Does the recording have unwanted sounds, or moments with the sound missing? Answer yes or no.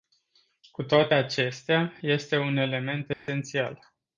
yes